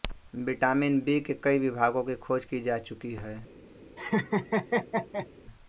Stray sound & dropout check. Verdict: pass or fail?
fail